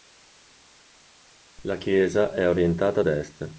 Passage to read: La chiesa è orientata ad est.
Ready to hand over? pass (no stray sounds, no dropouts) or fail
pass